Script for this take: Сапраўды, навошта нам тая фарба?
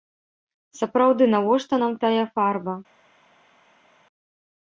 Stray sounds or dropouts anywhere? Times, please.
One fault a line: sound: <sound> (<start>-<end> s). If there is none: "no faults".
no faults